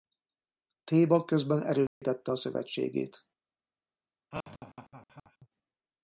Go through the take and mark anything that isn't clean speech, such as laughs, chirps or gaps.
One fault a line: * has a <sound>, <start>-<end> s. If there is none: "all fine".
* has a dropout, 1.9-2.0 s
* has a laugh, 4.3-5.5 s